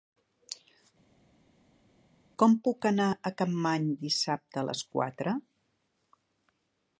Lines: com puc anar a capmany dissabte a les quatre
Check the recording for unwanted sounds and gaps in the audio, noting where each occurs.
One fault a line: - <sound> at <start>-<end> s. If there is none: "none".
none